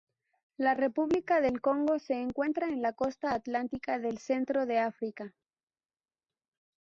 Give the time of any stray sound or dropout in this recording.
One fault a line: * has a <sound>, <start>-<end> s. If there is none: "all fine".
all fine